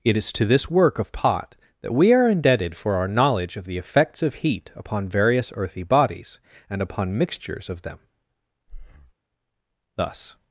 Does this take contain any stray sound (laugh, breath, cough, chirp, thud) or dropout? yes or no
yes